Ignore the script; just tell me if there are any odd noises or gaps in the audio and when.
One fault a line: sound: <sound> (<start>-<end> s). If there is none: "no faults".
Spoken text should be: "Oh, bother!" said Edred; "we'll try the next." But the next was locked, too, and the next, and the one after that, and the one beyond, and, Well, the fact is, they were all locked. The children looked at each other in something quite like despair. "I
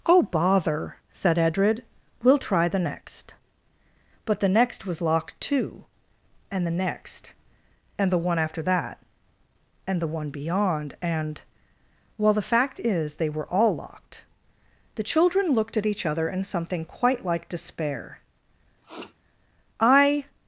sound: sniff (18.8-19.1 s)